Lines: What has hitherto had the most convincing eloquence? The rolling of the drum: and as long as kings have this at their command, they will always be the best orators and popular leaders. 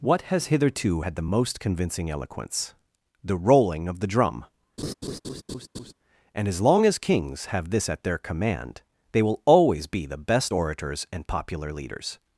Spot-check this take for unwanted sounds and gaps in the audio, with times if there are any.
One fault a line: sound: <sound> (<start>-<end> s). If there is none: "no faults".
sound: laugh (4.8-5.9 s)